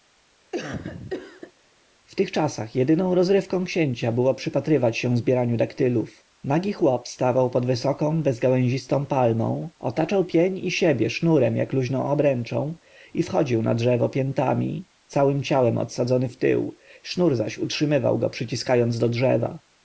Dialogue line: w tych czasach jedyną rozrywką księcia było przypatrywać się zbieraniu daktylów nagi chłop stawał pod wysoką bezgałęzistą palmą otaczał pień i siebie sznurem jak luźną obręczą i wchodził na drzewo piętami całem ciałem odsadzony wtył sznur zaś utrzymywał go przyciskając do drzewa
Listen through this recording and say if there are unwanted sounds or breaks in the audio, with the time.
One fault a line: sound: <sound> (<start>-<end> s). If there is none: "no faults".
sound: cough (0.5-1.5 s)